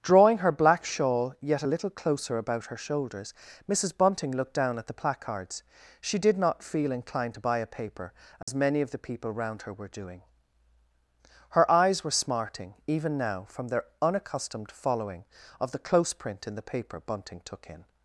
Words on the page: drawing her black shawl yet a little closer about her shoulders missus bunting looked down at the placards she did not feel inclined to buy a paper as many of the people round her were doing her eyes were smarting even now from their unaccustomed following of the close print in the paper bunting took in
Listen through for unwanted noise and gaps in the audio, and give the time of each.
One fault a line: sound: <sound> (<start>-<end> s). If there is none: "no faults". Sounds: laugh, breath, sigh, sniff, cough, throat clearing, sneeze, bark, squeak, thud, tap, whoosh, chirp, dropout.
sound: dropout (8.4-8.5 s)